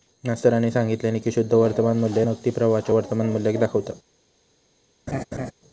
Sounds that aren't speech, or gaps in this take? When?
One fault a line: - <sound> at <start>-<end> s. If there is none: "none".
- laugh at 5.1-5.5 s